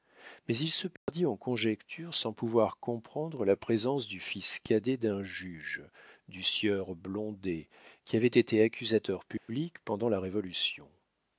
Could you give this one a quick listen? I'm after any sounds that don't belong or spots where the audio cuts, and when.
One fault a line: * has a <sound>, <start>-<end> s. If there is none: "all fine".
* has a dropout, 1.0-1.1 s
* has a dropout, 9.4-9.5 s